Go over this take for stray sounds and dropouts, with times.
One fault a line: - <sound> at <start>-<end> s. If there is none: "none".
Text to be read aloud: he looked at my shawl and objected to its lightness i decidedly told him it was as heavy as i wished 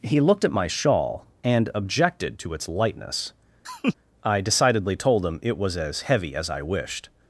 - laugh at 3.6-3.9 s